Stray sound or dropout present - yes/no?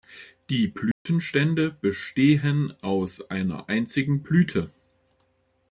yes